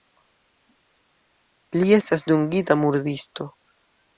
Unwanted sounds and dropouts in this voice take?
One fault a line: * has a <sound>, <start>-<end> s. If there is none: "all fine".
all fine